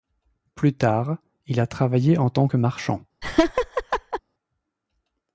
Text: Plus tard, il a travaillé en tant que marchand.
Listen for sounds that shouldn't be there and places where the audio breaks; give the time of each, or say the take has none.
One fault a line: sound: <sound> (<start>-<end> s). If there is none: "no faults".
sound: laugh (3.2-4.2 s)